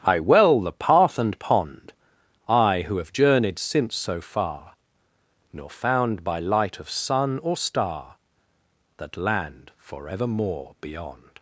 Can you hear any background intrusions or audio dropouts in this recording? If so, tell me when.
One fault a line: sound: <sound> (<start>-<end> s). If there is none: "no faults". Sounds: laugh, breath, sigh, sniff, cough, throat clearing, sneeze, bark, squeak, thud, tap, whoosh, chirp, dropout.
no faults